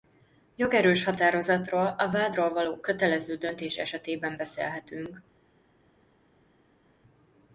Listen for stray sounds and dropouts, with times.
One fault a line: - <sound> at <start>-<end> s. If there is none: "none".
none